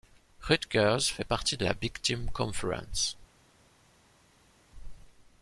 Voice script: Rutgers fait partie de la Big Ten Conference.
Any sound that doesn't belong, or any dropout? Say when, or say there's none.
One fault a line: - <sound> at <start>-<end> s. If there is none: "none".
none